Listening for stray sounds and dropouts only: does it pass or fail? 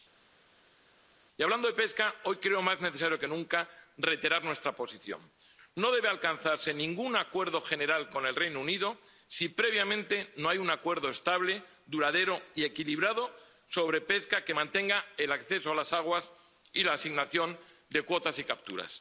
pass